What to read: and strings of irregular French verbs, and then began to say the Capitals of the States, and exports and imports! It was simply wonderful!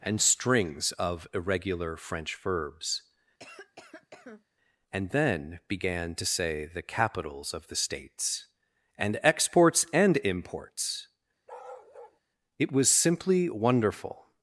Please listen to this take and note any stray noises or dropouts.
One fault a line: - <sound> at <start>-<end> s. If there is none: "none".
- cough at 3.4-4.4 s
- bark at 11.5-12.2 s